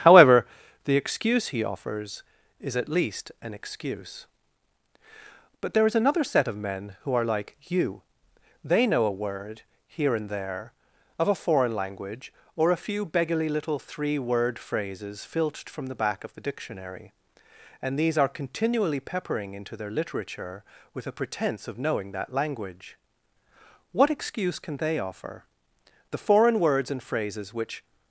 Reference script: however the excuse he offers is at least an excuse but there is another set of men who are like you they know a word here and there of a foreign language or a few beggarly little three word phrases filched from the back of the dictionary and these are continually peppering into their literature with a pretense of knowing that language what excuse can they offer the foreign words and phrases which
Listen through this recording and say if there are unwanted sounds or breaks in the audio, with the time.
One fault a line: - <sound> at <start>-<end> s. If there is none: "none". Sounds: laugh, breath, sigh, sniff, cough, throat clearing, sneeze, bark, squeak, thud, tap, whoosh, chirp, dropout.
none